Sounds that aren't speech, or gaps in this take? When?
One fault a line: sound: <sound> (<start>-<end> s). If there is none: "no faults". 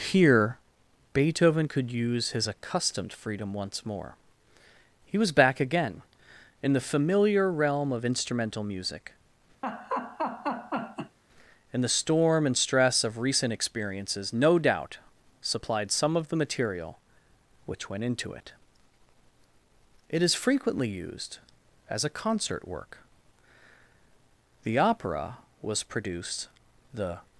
sound: laugh (9.6-11.2 s)